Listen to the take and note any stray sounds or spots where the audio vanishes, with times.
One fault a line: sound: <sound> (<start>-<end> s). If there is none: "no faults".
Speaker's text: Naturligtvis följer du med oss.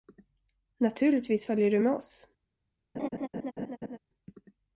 sound: laugh (2.9-4.0 s)